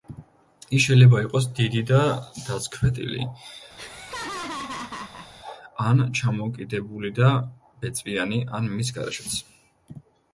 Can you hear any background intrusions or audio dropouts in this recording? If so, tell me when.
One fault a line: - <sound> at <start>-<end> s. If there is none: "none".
- laugh at 3.8-5.3 s